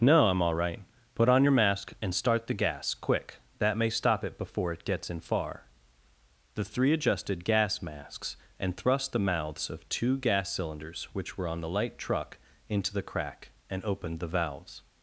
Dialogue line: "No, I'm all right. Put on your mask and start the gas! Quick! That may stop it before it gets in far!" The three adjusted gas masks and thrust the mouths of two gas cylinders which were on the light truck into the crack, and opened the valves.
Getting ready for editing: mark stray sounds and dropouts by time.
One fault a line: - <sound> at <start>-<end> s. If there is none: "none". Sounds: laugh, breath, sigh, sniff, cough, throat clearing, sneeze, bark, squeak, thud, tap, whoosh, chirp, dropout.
none